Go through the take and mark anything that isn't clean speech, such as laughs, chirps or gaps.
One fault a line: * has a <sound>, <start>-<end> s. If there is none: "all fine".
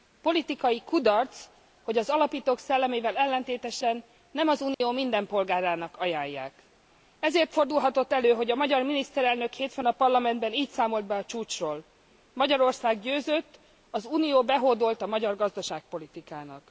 * has a dropout, 4.7-4.8 s